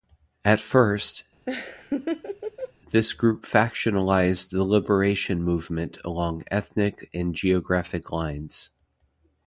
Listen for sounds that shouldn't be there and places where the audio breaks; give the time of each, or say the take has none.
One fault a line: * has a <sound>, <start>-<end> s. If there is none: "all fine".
* has a laugh, 1.5-2.7 s